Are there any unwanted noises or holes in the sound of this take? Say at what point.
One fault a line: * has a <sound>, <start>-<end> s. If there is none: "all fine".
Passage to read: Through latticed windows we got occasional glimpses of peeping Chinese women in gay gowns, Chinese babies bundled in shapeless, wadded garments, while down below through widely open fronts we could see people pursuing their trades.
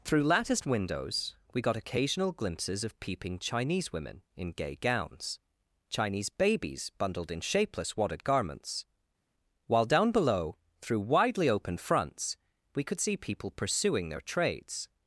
all fine